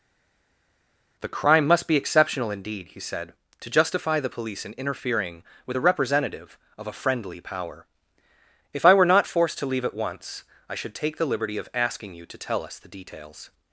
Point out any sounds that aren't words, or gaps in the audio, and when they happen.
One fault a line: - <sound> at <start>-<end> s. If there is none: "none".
none